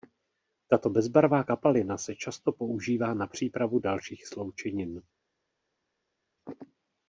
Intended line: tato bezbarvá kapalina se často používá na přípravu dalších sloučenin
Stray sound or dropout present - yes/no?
no